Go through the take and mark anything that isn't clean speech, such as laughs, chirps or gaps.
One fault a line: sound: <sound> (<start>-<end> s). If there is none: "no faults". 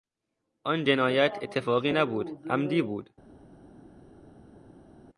no faults